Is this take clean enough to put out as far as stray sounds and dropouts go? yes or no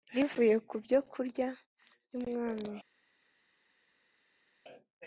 yes